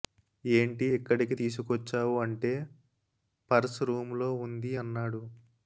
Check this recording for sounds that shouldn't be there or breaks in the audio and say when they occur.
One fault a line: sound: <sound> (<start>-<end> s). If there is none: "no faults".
no faults